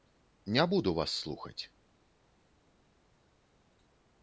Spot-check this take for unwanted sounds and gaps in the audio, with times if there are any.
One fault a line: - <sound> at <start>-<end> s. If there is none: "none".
none